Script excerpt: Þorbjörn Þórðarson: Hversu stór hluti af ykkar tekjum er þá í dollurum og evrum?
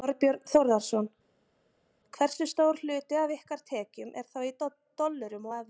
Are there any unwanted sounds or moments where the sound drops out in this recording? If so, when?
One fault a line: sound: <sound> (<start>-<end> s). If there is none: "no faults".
no faults